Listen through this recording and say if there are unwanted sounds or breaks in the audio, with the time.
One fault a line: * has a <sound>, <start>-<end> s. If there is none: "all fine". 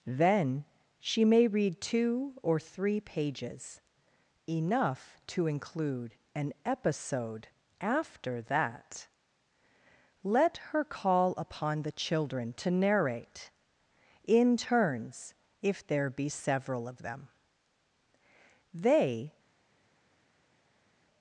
all fine